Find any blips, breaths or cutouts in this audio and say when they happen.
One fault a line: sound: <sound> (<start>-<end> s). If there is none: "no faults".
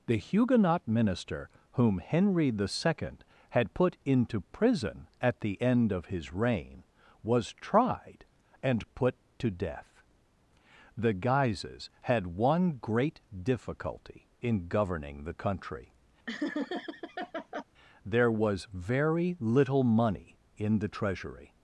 sound: laugh (16.3-17.6 s)